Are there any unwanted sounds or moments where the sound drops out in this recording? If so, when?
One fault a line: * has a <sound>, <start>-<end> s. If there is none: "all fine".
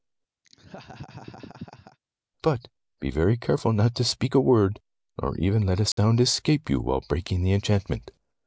* has a laugh, 0.4-2.0 s
* has a dropout, 5.9-6.0 s